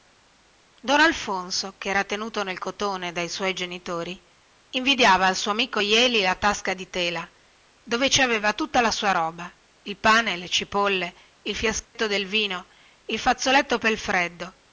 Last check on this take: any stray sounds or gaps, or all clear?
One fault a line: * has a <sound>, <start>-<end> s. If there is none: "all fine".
* has a dropout, 11.8-12.0 s